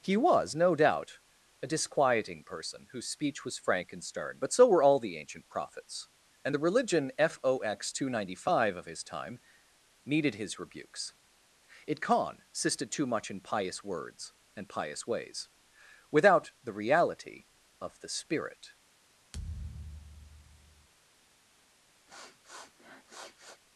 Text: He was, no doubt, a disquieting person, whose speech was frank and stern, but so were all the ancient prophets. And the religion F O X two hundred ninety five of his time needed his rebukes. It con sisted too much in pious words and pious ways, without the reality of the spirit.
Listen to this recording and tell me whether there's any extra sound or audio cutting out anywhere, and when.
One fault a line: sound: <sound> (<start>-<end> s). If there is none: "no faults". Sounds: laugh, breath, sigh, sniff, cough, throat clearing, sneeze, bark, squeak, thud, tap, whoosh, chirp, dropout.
sound: thud (19.3-20.9 s)
sound: sniff (22.1-23.6 s)